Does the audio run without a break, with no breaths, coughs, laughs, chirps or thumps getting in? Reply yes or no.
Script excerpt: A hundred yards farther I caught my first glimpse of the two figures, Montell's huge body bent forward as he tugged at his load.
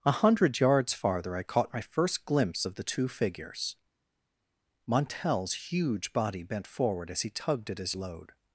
yes